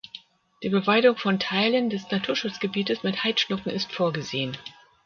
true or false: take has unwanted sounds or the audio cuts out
false